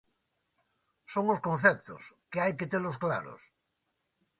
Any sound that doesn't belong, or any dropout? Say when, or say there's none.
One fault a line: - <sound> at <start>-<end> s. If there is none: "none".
none